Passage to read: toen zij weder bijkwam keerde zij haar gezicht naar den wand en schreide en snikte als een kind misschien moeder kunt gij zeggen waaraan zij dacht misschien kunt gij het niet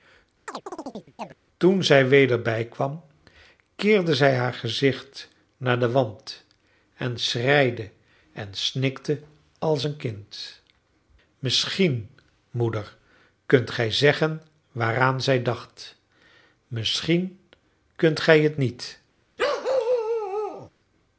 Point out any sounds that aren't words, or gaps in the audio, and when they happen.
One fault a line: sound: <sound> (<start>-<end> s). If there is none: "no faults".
sound: chirp (0.5-1.4 s)
sound: bark (19.4-20.7 s)